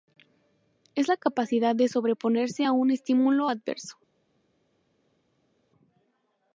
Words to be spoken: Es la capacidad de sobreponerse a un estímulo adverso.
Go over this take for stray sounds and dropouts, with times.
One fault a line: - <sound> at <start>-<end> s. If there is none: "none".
none